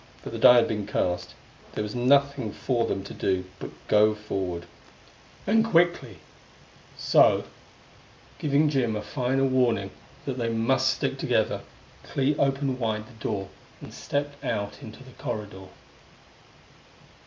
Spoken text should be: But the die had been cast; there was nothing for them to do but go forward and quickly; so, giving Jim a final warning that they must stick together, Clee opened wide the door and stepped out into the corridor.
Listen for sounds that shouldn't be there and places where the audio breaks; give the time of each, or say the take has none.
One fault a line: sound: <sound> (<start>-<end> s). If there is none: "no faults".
no faults